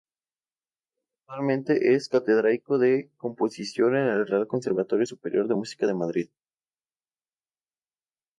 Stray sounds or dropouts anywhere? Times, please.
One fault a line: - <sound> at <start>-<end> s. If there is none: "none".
none